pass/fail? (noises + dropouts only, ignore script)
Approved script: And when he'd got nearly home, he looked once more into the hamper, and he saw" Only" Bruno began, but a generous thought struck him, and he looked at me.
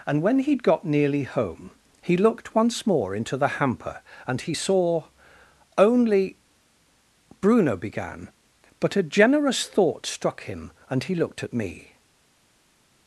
pass